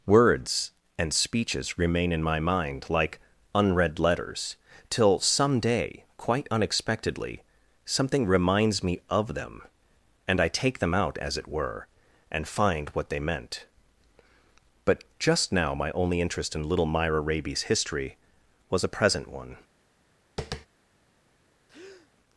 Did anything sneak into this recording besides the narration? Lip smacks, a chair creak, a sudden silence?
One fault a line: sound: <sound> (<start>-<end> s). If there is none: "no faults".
sound: tap (20.4-20.7 s)
sound: breath (21.7-22.1 s)